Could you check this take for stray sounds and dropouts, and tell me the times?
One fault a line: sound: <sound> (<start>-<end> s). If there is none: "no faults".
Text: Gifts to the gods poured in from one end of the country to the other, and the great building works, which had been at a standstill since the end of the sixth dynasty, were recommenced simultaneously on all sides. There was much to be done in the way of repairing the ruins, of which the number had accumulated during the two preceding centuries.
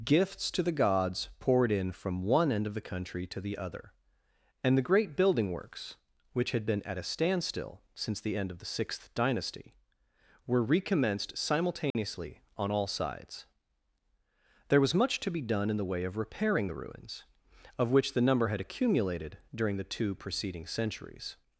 sound: dropout (11.9-11.9 s)